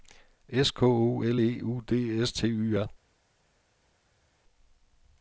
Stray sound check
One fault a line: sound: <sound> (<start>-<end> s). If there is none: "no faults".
no faults